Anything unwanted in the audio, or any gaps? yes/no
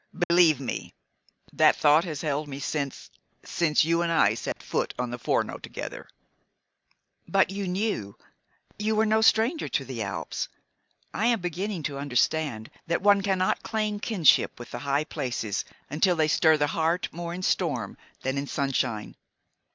yes